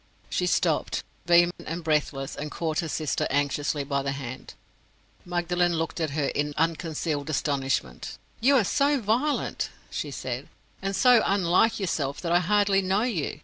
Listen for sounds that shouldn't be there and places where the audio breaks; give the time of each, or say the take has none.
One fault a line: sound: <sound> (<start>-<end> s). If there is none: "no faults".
sound: dropout (1.5-1.6 s)